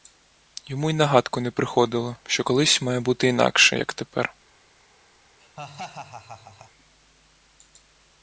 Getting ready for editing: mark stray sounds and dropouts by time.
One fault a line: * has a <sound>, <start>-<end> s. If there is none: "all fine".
* has a laugh, 5.4-6.7 s